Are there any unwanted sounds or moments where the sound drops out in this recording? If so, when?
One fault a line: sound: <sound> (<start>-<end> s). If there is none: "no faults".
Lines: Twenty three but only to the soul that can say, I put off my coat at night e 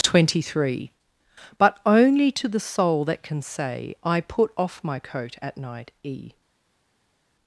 no faults